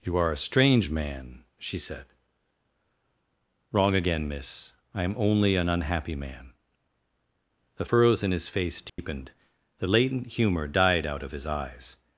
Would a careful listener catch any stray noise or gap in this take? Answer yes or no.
yes